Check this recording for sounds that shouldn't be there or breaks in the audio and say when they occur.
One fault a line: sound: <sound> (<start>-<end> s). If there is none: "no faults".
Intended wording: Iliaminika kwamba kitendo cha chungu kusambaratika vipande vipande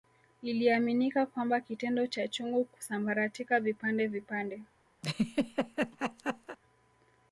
sound: laugh (5.0-6.6 s)